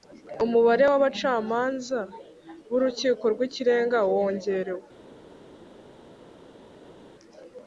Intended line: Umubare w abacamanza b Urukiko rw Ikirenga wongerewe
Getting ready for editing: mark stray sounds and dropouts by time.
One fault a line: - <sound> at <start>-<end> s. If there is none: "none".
none